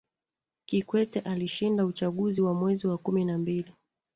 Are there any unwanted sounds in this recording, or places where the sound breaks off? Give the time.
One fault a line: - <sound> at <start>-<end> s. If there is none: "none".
none